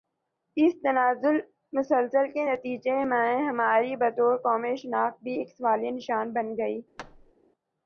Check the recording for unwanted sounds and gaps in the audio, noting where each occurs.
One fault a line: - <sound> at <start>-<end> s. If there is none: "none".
- thud at 7.0-7.3 s